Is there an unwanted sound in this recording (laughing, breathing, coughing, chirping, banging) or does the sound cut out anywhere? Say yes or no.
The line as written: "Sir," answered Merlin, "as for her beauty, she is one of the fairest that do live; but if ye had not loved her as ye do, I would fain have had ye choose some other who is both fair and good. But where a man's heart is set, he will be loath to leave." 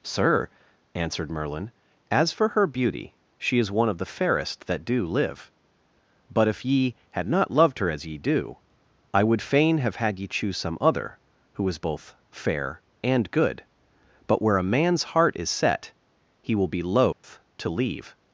yes